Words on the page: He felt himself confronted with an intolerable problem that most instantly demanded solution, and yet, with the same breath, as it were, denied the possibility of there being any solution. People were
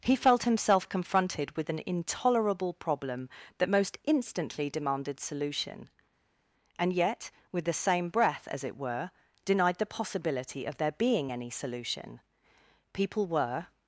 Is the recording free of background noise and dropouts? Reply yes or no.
yes